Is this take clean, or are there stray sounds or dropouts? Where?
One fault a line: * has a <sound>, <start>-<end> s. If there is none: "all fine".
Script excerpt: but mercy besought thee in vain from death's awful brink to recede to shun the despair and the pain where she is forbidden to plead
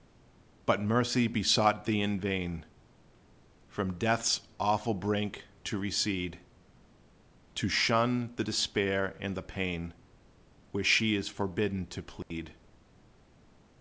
* has a dropout, 12.2-12.3 s